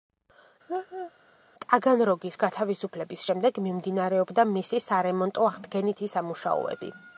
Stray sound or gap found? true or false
true